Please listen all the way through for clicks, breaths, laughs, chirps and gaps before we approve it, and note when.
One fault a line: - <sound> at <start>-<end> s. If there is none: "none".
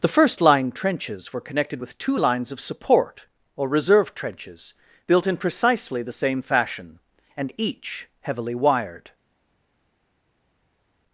none